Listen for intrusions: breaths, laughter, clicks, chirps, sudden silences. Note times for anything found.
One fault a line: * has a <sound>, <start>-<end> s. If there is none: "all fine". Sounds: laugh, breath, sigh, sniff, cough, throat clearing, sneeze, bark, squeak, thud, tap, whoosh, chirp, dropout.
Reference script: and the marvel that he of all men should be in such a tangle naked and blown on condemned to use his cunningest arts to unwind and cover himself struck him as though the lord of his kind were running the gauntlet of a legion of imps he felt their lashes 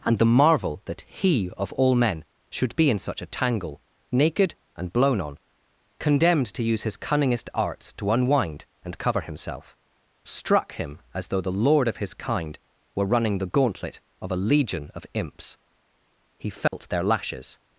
* has a dropout, 16.7-16.7 s